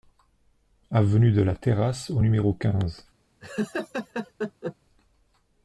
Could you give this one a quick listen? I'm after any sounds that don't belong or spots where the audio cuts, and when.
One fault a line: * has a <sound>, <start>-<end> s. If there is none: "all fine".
* has a laugh, 3.4-4.8 s